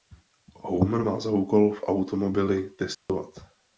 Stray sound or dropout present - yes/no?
yes